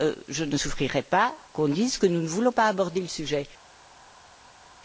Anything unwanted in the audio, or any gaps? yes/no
no